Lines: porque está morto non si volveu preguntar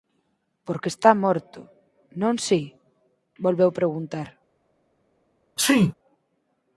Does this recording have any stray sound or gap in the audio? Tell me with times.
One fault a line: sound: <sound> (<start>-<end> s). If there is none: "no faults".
sound: sneeze (5.6-5.9 s)